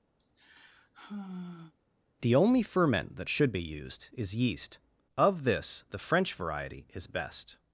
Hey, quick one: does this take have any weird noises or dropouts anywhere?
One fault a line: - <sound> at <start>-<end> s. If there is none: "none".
- sigh at 0.2-1.7 s